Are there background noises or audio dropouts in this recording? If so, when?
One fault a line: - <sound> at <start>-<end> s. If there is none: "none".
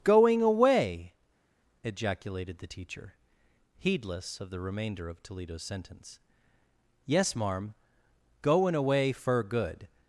none